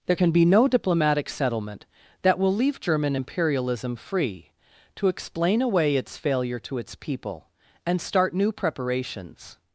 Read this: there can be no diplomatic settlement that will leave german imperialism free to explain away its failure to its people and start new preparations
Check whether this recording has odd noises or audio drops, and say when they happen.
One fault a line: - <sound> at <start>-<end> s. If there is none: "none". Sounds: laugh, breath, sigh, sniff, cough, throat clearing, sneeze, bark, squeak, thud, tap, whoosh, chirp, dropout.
none